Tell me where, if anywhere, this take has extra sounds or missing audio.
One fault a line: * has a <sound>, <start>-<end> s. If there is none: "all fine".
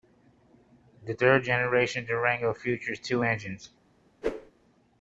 * has a whoosh, 4.2-4.5 s